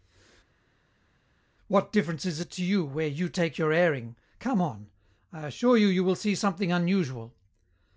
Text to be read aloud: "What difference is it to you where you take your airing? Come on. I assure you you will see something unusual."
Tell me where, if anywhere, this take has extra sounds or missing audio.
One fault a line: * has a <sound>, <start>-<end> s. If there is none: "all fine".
all fine